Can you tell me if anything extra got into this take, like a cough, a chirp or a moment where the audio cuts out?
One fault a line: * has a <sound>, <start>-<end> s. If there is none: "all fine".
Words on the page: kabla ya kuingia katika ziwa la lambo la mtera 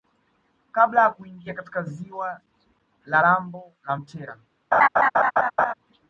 * has a laugh, 4.7-5.7 s